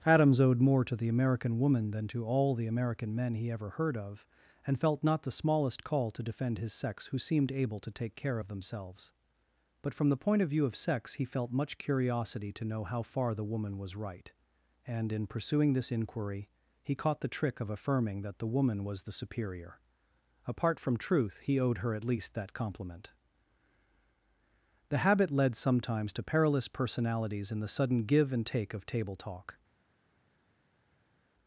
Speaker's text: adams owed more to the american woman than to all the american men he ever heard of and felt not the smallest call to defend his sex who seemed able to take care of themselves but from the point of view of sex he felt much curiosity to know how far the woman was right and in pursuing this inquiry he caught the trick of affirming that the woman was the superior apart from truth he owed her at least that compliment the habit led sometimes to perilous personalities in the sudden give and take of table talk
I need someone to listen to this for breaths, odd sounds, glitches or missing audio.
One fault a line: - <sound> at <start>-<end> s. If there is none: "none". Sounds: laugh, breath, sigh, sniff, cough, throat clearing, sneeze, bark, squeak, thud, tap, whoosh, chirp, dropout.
none